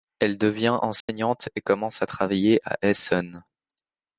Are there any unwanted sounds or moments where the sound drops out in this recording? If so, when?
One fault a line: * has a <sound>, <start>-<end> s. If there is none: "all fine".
* has a dropout, 1.0-1.1 s